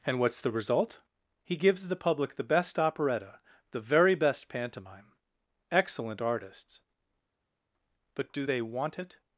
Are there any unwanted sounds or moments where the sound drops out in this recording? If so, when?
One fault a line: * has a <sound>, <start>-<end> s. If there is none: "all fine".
all fine